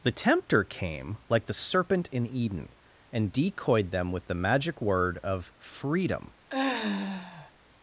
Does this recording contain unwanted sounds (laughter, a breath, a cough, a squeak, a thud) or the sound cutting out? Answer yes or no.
yes